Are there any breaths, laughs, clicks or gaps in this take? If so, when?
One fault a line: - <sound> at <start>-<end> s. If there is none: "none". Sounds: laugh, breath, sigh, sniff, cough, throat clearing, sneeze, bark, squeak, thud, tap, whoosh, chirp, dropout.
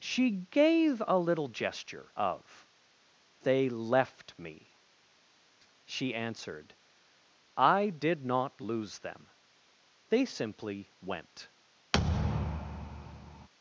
- thud at 11.9-13.5 s